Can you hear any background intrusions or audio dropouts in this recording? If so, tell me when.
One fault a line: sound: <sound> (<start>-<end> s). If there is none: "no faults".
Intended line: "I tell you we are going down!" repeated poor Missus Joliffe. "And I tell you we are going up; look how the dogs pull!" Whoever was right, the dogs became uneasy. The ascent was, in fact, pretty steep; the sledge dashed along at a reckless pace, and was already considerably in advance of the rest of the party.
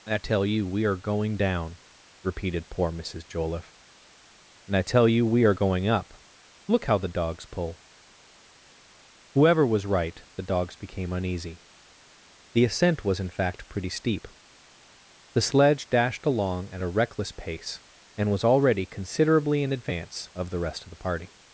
no faults